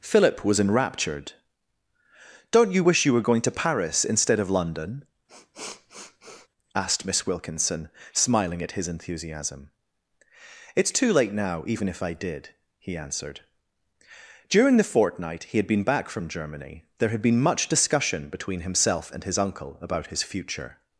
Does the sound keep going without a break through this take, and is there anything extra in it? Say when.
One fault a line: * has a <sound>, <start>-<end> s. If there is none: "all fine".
* has a sniff, 5.3-6.5 s